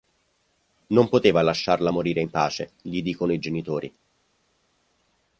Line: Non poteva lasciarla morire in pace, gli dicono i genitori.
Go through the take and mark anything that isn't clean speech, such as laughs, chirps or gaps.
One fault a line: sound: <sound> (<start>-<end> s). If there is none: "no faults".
no faults